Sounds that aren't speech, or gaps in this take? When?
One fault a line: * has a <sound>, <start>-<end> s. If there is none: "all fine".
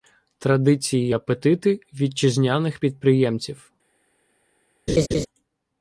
* has a laugh, 4.9-5.3 s